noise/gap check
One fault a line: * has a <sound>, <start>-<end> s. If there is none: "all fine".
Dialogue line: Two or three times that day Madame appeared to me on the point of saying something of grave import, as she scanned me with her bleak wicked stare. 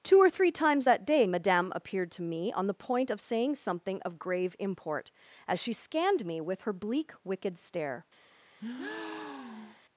* has a breath, 8.6-9.8 s